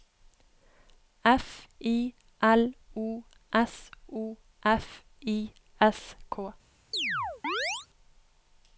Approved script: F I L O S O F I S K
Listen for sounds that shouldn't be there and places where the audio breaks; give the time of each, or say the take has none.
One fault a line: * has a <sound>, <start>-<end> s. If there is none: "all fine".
* has a chirp, 6.9-7.9 s